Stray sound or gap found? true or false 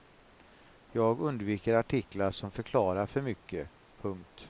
false